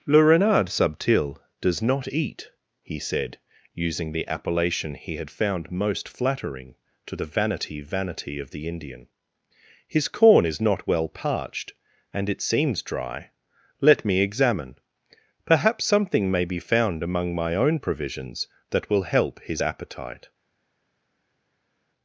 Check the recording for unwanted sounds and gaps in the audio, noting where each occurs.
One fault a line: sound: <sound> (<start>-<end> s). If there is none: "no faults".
no faults